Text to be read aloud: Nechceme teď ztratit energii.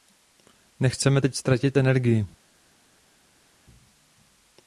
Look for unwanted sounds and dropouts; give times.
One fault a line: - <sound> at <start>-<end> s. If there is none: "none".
none